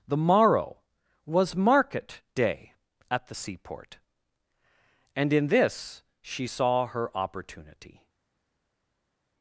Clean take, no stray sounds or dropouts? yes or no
yes